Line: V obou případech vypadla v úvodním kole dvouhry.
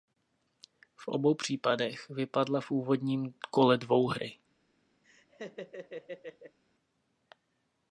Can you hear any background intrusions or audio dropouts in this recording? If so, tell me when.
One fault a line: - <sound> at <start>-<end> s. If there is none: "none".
- laugh at 5.0-6.6 s